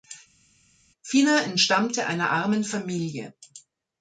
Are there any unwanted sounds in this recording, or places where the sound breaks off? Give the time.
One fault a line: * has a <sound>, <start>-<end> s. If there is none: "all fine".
all fine